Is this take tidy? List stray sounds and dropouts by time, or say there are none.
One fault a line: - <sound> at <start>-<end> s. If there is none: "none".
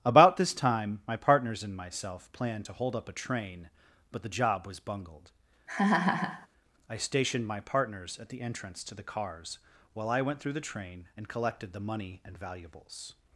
- laugh at 5.7-6.5 s